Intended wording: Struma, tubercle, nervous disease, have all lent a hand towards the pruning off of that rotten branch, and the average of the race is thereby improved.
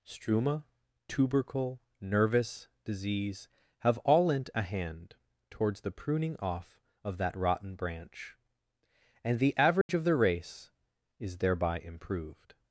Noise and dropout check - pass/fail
fail